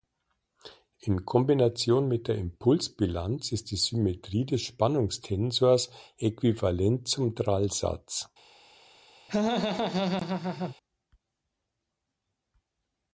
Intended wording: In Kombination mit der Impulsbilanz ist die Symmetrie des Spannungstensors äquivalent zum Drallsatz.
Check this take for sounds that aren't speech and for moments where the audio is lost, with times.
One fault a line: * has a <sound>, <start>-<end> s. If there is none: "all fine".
* has a laugh, 9.3-10.8 s